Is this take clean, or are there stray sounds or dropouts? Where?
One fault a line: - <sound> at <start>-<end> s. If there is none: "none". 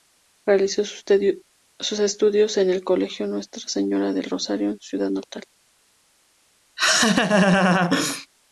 - laugh at 6.8-8.3 s